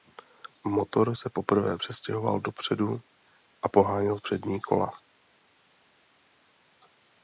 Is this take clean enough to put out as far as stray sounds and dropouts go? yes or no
yes